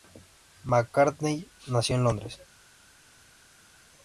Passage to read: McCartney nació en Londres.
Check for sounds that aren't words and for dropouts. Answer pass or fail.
pass